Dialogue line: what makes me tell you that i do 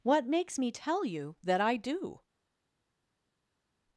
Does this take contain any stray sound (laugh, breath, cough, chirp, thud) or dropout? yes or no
no